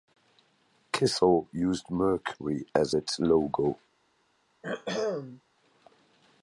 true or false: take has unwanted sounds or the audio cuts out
true